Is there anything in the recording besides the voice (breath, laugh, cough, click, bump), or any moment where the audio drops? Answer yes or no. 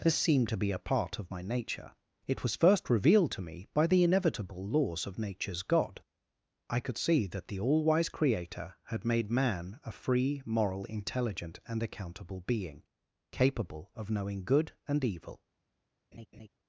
yes